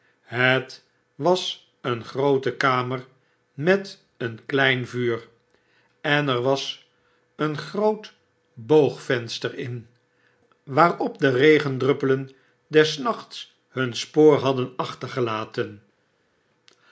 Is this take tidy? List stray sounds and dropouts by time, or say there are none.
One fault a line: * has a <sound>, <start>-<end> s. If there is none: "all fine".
all fine